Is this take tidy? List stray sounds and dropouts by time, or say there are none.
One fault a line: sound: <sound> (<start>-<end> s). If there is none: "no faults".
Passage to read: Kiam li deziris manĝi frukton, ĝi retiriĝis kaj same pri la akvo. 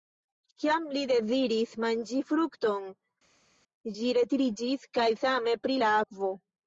no faults